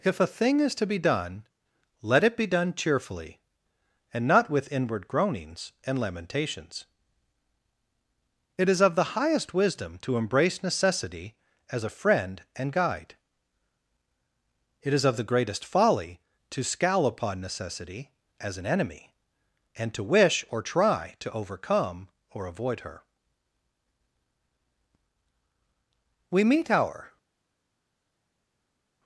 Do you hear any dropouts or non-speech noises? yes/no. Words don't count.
no